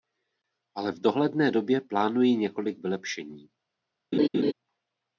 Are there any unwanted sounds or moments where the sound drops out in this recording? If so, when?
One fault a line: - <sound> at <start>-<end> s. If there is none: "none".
- laugh at 4.1-4.5 s